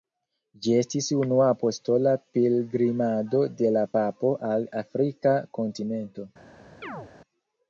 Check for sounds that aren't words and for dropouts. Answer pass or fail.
fail